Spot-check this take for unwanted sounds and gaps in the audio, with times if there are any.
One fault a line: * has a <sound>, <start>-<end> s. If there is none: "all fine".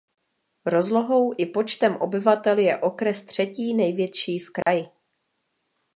* has a dropout, 4.6-4.7 s